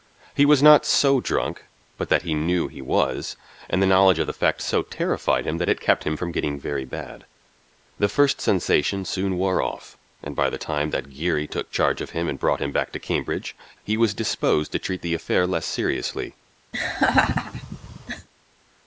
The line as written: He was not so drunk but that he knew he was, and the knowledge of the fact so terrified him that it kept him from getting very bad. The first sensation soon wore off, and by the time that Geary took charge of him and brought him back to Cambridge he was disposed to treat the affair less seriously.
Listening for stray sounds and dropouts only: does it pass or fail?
fail